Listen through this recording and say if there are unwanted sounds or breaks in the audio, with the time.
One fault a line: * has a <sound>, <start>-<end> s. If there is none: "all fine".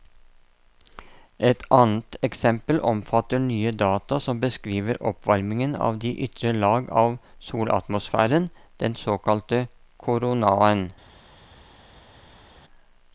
all fine